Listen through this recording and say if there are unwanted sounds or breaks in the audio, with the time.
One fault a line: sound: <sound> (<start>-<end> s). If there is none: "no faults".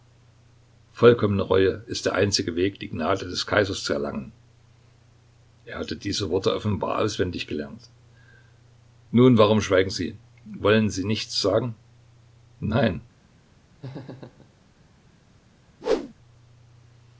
sound: laugh (13.8-14.5 s)
sound: whoosh (15.8-16.1 s)